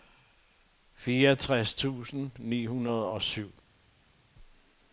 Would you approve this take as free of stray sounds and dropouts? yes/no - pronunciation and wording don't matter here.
yes